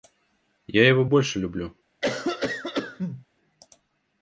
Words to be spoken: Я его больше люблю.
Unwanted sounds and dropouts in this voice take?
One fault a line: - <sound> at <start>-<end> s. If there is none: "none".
- cough at 2.0-3.3 s